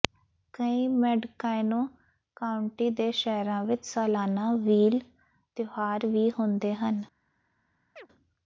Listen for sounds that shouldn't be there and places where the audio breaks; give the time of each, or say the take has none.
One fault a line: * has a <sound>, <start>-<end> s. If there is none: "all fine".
* has a chirp, 8.0-8.1 s